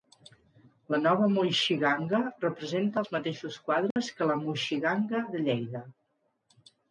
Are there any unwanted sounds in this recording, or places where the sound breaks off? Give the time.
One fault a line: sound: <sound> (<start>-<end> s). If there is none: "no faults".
sound: dropout (3.9-4.0 s)